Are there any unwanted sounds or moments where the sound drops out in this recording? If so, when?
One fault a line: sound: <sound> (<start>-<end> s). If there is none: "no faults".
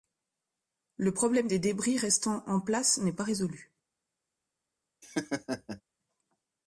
sound: laugh (5.0-5.8 s)